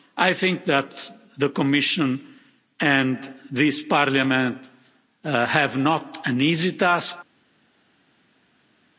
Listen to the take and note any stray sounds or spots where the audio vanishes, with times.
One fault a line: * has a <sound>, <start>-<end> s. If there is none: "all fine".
all fine